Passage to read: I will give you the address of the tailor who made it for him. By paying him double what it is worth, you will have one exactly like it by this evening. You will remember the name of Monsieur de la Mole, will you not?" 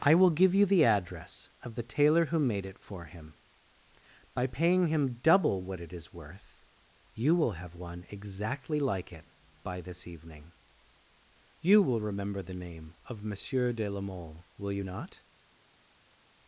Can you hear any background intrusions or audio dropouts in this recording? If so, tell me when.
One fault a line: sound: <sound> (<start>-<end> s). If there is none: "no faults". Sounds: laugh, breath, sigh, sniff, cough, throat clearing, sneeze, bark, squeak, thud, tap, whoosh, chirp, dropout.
no faults